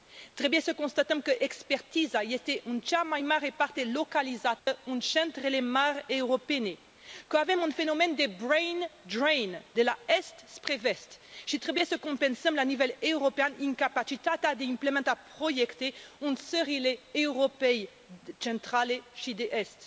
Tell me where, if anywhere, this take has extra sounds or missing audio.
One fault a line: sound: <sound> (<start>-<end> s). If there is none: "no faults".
sound: dropout (4.6-4.7 s)